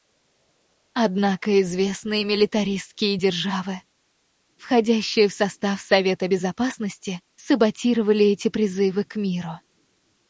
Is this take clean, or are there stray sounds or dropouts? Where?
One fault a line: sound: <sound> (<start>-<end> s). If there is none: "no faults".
no faults